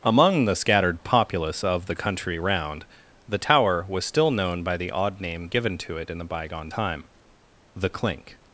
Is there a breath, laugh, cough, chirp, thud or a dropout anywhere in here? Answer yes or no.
no